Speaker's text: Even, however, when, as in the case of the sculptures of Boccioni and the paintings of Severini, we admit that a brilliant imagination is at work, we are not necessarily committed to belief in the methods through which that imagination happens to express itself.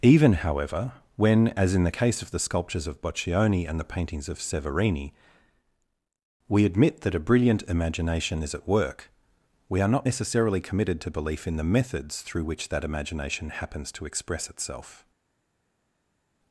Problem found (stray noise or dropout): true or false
false